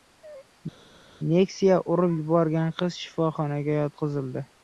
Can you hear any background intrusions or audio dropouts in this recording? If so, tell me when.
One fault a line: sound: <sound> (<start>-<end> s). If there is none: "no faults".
no faults